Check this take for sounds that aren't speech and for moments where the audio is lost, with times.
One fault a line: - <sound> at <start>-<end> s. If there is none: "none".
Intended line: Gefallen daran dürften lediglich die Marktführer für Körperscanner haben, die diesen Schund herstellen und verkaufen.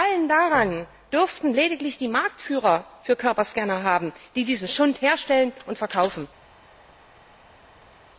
none